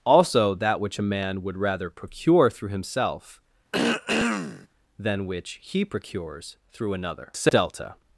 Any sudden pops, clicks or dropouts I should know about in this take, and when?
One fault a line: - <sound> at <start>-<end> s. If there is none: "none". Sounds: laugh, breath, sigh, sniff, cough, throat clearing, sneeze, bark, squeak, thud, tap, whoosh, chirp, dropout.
- throat clearing at 3.7-4.7 s